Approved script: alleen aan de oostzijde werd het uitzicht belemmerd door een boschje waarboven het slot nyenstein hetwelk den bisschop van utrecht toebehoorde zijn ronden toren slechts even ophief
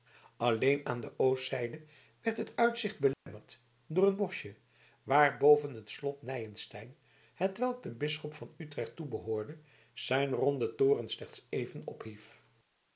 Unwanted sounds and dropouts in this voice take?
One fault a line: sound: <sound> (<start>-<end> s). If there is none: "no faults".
sound: dropout (3.1-3.3 s)